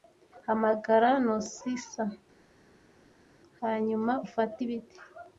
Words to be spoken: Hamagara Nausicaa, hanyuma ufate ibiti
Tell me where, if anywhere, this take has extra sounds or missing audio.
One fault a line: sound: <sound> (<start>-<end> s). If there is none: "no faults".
no faults